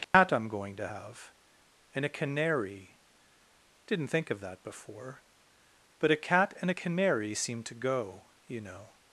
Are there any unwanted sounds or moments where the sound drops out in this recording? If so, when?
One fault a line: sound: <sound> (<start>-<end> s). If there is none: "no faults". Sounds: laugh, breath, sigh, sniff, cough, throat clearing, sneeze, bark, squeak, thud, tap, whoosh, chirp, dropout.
sound: dropout (0.0-0.1 s)